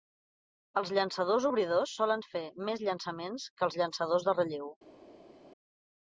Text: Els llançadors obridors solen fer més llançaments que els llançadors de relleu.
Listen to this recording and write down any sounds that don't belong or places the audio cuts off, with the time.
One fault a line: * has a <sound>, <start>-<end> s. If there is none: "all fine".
all fine